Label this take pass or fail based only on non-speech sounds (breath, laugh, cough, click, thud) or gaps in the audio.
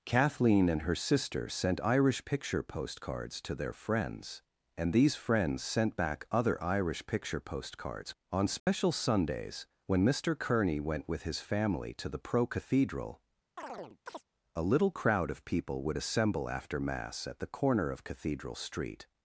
fail